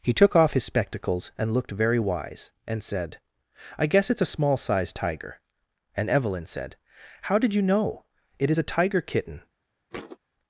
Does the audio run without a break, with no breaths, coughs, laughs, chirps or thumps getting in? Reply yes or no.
no